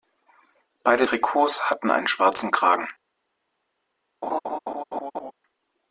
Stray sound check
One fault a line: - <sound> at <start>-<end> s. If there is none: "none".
- laugh at 4.2-5.3 s